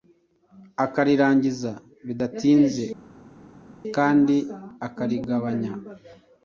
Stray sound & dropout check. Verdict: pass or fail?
pass